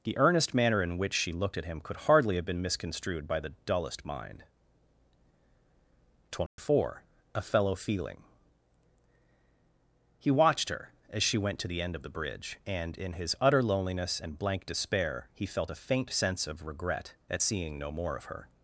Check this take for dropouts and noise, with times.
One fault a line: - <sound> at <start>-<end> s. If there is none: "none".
- dropout at 6.5-6.6 s